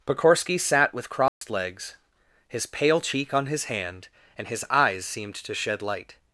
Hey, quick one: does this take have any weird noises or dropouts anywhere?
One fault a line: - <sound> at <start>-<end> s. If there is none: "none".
- dropout at 1.3-1.4 s